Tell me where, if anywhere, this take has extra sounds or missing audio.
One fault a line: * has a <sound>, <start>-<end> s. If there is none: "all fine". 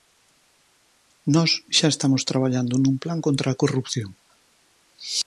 all fine